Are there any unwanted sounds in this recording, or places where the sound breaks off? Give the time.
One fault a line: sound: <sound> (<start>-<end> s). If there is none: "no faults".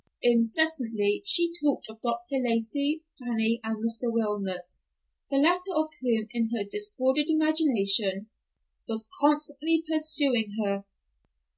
no faults